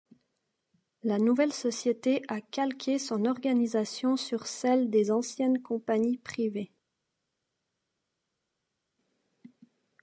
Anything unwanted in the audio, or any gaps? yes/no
no